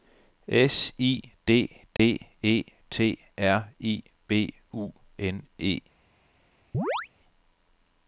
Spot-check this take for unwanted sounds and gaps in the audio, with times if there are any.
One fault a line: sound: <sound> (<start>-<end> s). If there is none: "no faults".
sound: dropout (2.0-2.0 s)
sound: chirp (6.7-7.1 s)